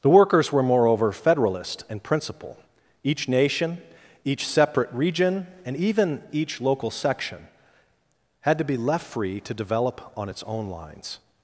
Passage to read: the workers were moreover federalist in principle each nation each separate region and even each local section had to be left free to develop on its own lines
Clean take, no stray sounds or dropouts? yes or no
yes